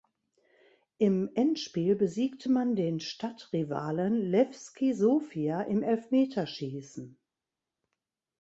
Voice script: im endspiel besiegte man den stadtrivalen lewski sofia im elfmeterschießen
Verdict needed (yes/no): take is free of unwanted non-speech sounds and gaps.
yes